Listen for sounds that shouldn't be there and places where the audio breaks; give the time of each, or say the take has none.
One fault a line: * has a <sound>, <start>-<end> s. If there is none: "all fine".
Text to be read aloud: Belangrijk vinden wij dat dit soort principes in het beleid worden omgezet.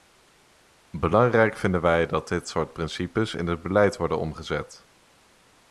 all fine